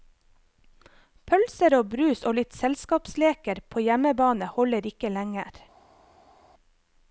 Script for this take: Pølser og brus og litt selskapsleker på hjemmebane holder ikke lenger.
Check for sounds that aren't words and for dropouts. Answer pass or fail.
pass